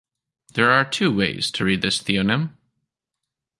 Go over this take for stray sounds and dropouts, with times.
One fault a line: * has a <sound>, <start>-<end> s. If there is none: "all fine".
all fine